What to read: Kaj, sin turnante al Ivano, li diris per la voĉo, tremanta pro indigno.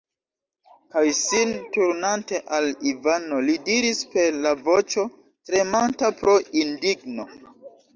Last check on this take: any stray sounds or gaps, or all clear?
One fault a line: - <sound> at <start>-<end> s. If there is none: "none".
none